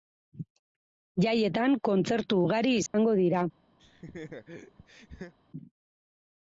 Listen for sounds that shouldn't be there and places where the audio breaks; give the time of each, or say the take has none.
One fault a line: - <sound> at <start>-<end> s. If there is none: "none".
- dropout at 2.9-2.9 s
- laugh at 3.8-5.3 s